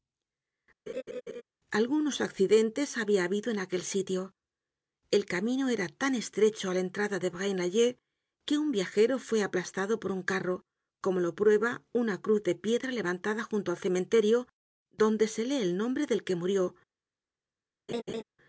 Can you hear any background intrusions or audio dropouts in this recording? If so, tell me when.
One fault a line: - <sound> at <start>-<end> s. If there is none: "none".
- laugh at 0.9-1.4 s
- laugh at 17.9-18.2 s